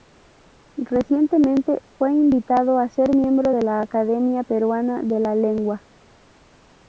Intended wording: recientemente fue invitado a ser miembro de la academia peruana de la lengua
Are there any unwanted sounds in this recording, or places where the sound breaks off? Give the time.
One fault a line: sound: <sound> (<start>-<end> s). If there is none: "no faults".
no faults